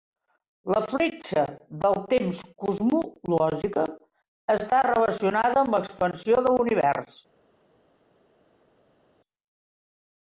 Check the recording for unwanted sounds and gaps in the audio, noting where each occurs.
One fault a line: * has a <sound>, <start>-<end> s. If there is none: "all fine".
all fine